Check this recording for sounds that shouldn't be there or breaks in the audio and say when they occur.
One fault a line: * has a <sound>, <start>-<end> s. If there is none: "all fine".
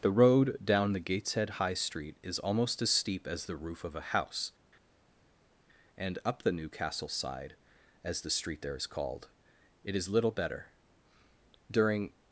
all fine